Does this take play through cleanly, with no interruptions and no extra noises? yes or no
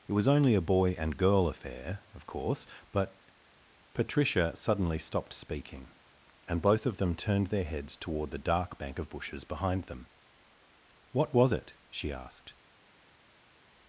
yes